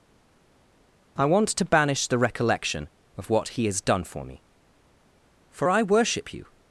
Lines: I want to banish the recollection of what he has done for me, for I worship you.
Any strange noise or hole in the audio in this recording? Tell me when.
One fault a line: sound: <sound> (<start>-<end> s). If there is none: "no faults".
no faults